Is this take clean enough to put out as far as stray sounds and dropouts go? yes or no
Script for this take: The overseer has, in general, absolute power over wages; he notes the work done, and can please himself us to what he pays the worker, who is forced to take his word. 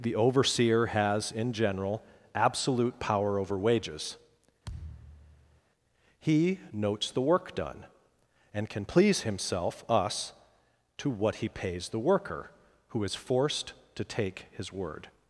no